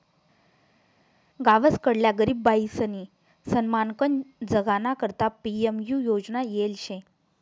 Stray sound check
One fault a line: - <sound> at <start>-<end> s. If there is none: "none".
none